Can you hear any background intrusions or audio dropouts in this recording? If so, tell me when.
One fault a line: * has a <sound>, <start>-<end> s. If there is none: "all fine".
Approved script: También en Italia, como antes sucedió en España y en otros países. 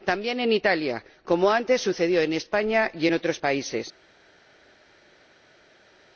all fine